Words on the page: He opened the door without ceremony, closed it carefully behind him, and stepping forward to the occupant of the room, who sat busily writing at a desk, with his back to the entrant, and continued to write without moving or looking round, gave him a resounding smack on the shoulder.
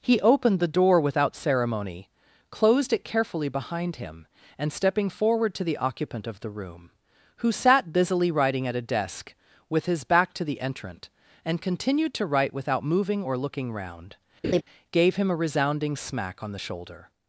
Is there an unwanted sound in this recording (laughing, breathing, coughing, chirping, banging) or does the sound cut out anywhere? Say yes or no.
yes